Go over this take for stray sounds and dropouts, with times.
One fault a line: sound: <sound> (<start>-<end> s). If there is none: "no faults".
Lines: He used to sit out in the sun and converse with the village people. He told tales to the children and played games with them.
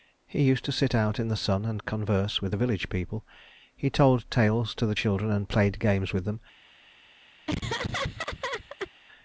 sound: laugh (7.5-8.9 s)